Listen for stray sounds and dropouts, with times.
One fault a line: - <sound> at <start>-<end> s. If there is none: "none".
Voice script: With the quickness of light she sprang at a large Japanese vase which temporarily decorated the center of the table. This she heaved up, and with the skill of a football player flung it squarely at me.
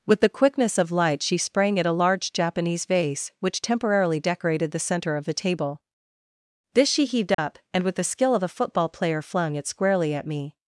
- dropout at 7.3-7.4 s